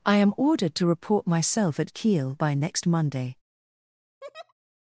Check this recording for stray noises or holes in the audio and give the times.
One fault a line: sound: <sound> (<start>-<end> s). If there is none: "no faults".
sound: laugh (4.2-4.5 s)